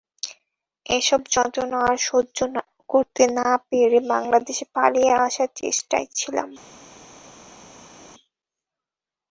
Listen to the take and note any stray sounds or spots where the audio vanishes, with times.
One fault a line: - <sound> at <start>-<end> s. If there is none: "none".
none